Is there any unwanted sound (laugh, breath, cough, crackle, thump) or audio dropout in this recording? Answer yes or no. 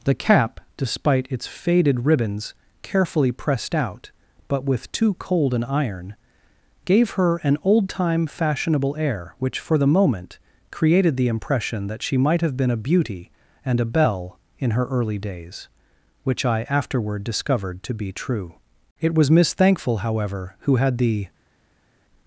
no